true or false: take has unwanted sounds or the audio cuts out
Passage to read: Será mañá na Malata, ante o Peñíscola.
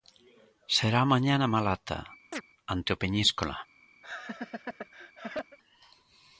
true